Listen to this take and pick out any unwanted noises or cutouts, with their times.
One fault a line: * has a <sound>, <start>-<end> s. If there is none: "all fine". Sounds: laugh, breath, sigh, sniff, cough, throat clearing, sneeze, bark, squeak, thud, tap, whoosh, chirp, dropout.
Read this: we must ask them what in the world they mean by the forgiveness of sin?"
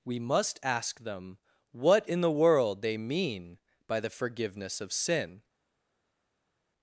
all fine